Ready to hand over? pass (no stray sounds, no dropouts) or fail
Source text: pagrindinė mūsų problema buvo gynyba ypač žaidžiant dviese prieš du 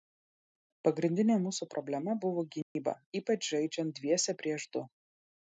fail